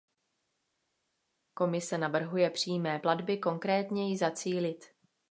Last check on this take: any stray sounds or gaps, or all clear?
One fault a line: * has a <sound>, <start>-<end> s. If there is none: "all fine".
all fine